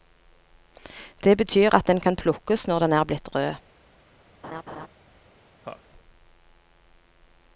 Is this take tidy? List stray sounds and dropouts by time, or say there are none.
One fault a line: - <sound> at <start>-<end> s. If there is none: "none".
- laugh at 4.4-4.9 s
- laugh at 5.6-5.8 s